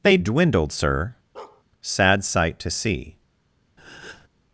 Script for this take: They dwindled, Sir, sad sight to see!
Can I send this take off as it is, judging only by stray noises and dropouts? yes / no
no